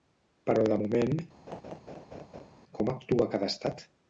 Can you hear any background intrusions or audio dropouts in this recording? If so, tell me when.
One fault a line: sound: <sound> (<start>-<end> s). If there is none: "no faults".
sound: laugh (1.5-2.5 s)